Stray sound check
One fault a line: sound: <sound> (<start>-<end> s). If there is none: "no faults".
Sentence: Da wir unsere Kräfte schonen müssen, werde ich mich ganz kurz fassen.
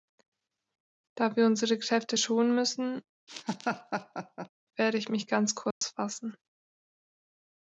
sound: laugh (3.3-4.5 s)
sound: dropout (5.7-5.8 s)